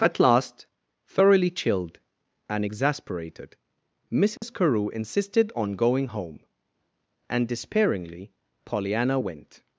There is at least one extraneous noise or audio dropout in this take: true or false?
true